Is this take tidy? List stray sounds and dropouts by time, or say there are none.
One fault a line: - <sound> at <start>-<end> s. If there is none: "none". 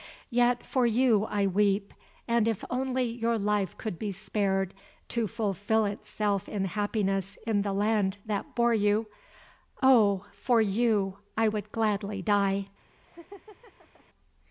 - laugh at 13.1-14.1 s